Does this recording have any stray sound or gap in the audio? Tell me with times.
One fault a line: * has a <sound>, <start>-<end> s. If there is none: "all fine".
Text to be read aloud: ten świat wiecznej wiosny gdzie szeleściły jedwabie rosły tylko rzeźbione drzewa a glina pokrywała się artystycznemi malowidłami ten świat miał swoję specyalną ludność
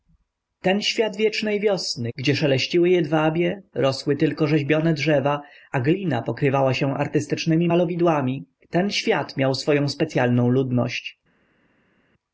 all fine